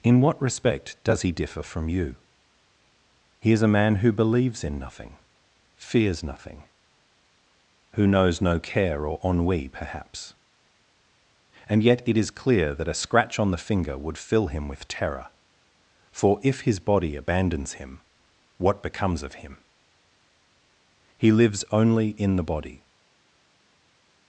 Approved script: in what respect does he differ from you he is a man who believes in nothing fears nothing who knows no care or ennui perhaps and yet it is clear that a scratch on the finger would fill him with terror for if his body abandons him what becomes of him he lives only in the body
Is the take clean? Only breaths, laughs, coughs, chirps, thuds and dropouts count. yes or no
yes